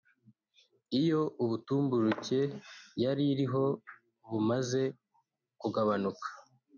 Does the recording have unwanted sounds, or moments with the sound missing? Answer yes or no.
no